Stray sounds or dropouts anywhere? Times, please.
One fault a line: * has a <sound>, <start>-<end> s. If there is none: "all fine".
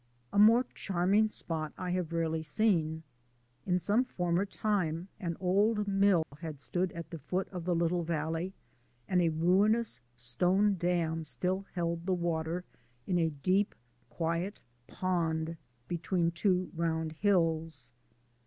* has a dropout, 6.2-6.3 s